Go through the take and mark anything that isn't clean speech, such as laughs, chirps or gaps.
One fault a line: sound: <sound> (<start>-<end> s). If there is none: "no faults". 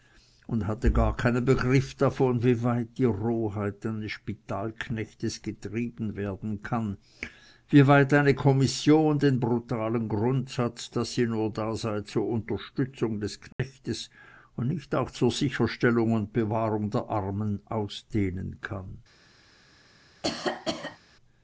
sound: dropout (13.5-13.6 s)
sound: cough (20.2-21.0 s)